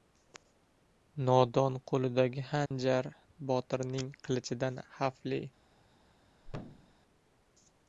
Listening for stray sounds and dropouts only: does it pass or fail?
fail